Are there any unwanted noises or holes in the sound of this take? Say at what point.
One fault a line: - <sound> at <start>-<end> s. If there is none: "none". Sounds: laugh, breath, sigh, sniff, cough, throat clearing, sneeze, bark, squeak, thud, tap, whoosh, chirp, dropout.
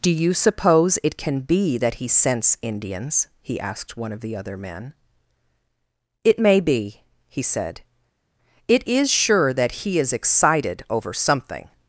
none